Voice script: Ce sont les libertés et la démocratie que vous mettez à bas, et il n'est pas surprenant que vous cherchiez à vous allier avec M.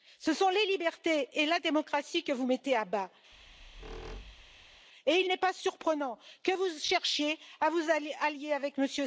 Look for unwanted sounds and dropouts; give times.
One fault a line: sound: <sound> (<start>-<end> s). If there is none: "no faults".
sound: squeak (3.3-4.9 s)